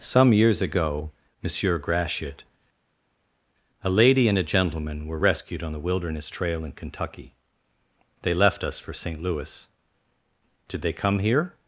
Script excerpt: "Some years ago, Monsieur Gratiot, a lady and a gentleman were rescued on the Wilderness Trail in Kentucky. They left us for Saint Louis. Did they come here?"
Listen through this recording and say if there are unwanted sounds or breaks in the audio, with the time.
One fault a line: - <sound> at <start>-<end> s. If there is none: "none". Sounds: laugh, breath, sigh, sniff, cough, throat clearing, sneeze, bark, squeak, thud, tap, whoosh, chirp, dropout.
none